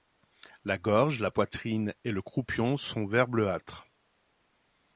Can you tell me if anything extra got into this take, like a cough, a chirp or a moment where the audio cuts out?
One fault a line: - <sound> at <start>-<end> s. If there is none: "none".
none